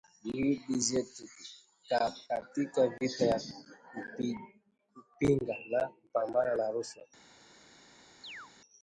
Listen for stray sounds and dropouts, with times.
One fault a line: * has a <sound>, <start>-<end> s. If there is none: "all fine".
* has a chirp, 8.2-8.5 s